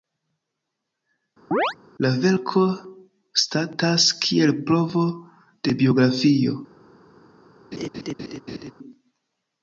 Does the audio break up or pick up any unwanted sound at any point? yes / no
yes